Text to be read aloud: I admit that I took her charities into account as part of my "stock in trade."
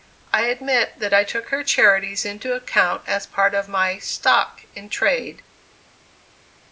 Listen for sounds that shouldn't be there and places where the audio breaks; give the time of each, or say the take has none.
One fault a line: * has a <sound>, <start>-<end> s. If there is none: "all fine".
all fine